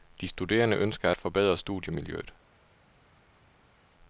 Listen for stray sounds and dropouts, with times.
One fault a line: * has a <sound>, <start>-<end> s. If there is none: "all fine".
all fine